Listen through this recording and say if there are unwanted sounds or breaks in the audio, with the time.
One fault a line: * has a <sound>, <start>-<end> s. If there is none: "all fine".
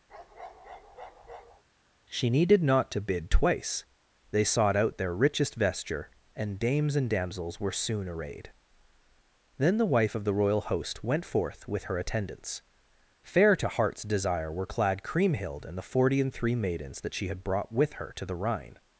* has a bark, 0.1-1.6 s